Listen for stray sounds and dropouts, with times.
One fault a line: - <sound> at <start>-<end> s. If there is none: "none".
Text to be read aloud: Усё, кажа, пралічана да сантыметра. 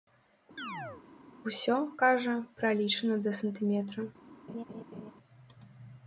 - chirp at 0.6-1.0 s
- laugh at 4.5-5.1 s